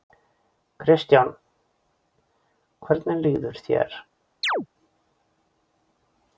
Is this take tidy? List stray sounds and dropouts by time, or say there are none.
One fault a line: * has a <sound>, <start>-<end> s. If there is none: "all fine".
* has a chirp, 4.4-4.7 s